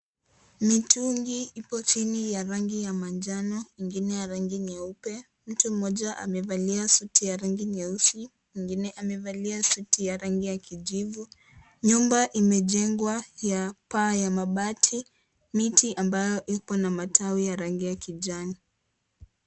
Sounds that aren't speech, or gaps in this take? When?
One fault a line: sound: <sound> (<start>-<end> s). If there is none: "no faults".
no faults